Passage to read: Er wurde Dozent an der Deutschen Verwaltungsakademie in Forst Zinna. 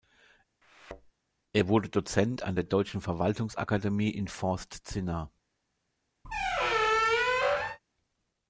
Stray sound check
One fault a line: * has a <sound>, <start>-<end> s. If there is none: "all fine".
* has a thud, 0.6-1.1 s
* has a squeak, 6.2-7.8 s